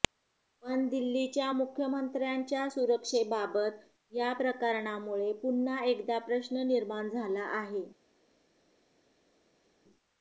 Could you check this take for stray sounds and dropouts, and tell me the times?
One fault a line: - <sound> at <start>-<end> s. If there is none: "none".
none